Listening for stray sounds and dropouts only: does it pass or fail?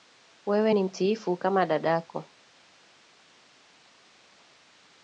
pass